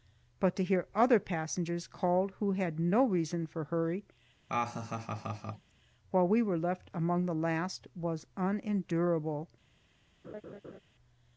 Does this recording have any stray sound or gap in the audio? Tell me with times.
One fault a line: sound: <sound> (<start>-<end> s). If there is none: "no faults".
sound: laugh (4.5-5.7 s)
sound: laugh (10.2-10.8 s)